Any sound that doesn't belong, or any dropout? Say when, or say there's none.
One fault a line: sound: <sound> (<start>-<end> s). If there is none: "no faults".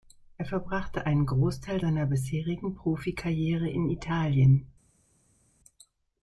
no faults